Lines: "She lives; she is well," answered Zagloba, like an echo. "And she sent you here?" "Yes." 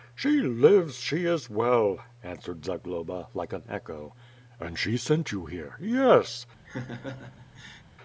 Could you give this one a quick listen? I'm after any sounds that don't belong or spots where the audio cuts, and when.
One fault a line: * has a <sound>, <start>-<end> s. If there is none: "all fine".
* has a laugh, 6.7-7.8 s